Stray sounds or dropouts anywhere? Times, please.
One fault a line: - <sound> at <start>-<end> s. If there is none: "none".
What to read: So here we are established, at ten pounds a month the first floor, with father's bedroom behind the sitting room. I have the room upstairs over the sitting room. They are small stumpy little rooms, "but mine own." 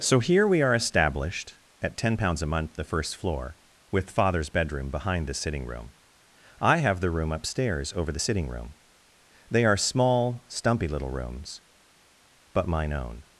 none